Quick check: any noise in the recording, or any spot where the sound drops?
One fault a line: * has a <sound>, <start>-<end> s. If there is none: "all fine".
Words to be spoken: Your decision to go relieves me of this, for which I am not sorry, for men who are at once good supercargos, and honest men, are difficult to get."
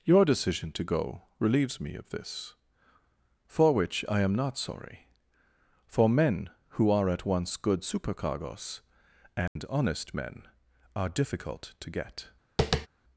* has a dropout, 9.5-9.6 s
* has a tap, 12.6-12.9 s